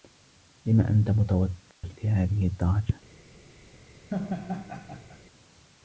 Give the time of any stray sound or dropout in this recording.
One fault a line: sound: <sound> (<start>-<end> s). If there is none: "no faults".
sound: dropout (1.7-1.8 s)
sound: laugh (4.1-5.2 s)